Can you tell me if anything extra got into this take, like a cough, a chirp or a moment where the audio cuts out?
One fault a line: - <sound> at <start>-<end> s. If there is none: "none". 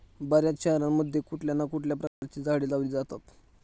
- dropout at 2.1-2.2 s